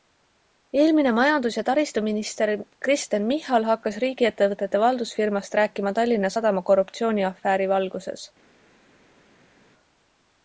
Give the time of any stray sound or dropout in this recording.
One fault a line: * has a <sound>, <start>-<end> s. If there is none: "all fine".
all fine